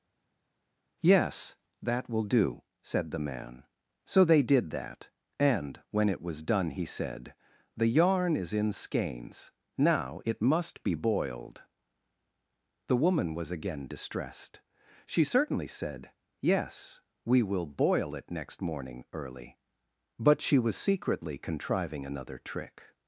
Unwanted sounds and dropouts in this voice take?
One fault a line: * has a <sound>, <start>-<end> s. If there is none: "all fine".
all fine